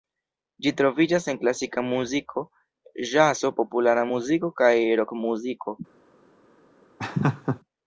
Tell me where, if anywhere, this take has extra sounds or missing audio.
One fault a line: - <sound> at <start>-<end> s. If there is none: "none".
- laugh at 7.0-7.6 s